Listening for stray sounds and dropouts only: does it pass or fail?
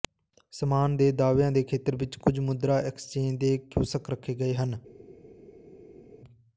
pass